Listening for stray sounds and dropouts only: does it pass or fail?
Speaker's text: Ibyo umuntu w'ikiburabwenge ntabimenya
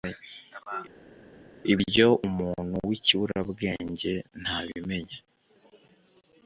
pass